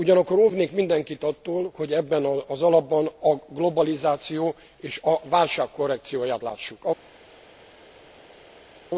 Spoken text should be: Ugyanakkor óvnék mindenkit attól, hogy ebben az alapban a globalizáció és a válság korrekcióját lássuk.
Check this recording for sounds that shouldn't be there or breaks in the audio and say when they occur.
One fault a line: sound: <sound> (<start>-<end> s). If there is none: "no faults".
no faults